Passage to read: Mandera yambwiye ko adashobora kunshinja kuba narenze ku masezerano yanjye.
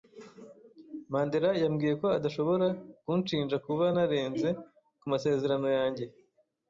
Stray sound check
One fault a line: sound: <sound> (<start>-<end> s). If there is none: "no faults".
no faults